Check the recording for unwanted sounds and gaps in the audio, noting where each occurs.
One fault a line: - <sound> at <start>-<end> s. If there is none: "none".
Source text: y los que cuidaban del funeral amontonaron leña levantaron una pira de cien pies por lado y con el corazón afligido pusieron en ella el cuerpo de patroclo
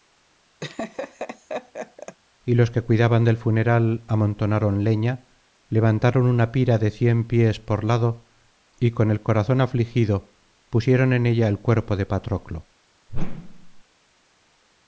- laugh at 0.6-2.2 s
- whoosh at 13.1-13.8 s